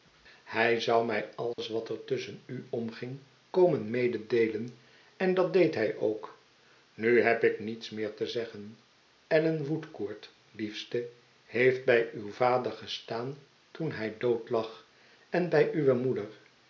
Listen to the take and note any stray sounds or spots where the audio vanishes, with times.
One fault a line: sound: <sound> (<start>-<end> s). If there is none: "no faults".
sound: dropout (1.5-1.6 s)